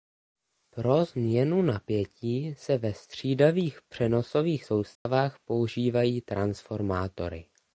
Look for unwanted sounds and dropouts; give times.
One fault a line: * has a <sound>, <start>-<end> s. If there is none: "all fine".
* has a dropout, 5.0-5.1 s